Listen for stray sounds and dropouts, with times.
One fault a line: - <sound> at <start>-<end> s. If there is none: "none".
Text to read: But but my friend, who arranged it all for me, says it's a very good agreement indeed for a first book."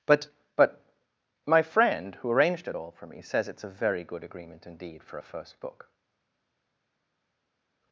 none